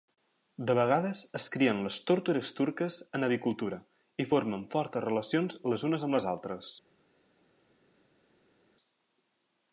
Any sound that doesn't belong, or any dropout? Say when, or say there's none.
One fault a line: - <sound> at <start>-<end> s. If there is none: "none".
none